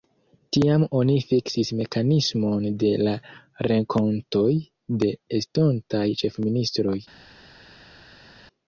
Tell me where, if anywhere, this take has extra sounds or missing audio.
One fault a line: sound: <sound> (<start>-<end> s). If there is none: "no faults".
no faults